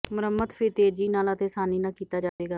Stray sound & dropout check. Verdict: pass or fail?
fail